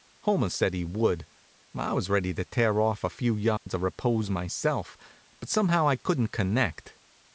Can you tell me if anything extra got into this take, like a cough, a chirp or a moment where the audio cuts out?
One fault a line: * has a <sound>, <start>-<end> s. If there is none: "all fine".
* has a dropout, 3.6-3.7 s